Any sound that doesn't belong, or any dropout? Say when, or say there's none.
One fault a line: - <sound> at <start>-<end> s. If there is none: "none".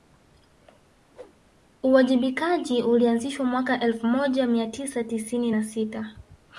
- whoosh at 1.1-1.4 s